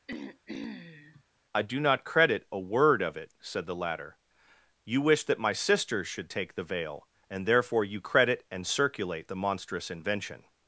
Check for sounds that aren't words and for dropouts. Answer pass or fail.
fail